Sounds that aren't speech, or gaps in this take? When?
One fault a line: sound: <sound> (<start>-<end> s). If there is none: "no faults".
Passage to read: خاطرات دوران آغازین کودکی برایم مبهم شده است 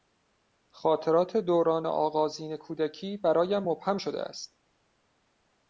no faults